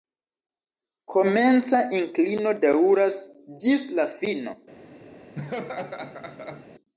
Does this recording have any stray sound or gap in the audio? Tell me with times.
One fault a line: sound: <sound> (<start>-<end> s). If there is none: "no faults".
sound: laugh (5.3-6.7 s)